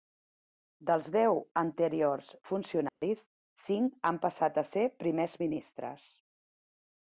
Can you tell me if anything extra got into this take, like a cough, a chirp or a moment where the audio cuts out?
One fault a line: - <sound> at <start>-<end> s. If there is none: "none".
- dropout at 2.9-3.0 s